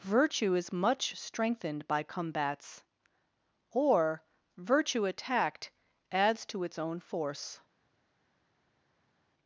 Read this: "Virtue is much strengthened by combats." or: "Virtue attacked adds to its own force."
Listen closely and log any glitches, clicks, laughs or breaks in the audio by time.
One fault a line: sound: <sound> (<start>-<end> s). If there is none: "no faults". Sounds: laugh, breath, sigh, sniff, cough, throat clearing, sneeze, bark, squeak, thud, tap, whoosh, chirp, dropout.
no faults